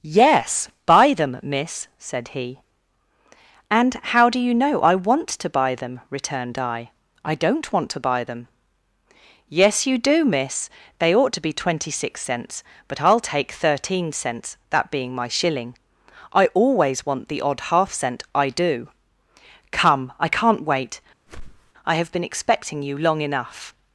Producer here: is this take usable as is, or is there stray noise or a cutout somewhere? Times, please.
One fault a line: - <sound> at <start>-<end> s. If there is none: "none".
- whoosh at 21.3-21.7 s